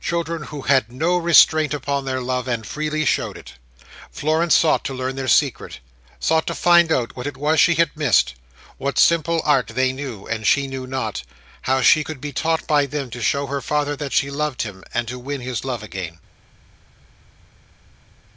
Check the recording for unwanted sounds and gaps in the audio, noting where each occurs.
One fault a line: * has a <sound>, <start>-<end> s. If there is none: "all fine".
all fine